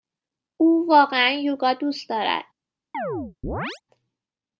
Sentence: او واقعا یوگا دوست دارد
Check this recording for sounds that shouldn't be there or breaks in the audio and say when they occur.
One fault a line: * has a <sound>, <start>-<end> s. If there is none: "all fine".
* has a chirp, 2.9-3.8 s